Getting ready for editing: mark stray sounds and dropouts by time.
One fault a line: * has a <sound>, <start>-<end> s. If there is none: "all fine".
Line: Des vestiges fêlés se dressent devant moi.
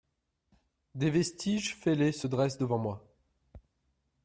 all fine